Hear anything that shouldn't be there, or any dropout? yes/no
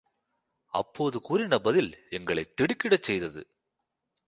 no